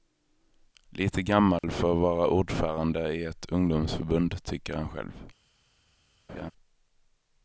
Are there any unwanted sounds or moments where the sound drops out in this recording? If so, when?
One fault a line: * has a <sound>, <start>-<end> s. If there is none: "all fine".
* has a dropout, 1.6-1.6 s
* has a laugh, 6.3-6.5 s